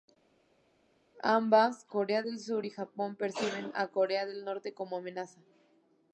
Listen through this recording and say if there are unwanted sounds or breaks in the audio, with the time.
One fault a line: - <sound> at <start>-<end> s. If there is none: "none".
none